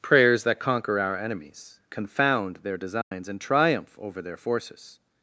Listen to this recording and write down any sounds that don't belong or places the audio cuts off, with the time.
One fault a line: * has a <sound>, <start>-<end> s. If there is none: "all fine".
* has a dropout, 3.0-3.1 s